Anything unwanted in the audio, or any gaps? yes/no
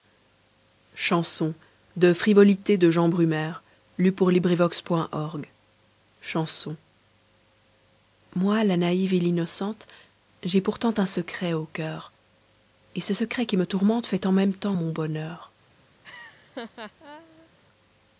yes